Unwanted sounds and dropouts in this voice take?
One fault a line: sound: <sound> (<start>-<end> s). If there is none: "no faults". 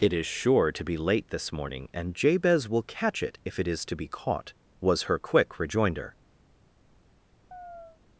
sound: chirp (7.5-8.0 s)